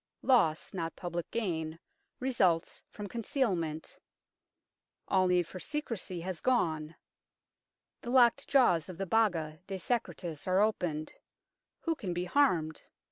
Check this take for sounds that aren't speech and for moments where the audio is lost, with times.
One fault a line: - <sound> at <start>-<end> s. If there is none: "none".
none